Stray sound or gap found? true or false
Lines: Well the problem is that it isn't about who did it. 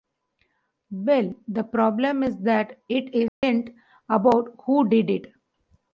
true